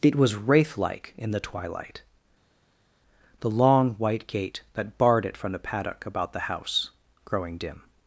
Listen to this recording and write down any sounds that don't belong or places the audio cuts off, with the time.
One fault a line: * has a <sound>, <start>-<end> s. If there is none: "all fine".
all fine